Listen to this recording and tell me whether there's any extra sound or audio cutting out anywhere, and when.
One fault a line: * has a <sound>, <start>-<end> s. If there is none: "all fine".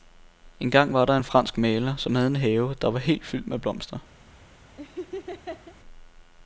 * has a laugh, 4.8-5.8 s